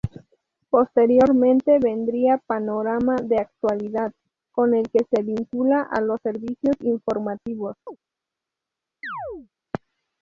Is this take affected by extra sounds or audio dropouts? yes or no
yes